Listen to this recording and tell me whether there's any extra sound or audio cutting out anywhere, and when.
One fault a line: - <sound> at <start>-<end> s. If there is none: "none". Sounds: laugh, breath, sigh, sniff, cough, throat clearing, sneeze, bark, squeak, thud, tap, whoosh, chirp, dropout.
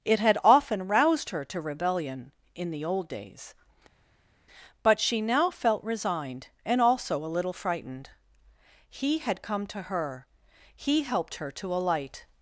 none